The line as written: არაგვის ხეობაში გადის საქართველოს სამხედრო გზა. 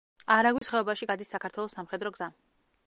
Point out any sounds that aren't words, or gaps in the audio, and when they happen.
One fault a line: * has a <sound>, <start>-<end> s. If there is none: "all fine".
* has a dropout, 0.6-0.6 s